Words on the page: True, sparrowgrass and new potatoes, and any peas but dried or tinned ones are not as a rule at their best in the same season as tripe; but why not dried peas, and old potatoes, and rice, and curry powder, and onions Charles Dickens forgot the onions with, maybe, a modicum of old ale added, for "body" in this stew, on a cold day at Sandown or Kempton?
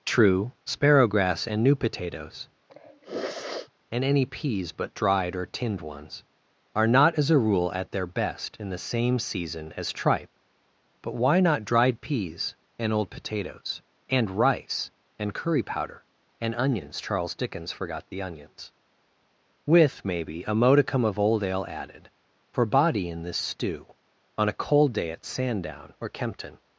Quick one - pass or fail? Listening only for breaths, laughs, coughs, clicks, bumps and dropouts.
fail